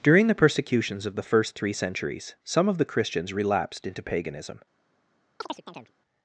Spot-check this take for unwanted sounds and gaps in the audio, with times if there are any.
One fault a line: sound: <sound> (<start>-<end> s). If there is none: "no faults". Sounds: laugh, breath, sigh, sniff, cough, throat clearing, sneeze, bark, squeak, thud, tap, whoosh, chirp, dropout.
sound: chirp (5.4-5.9 s)